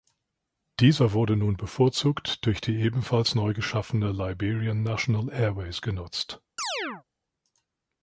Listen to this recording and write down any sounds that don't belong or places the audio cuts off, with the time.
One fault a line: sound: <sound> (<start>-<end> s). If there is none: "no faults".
sound: chirp (6.6-7.0 s)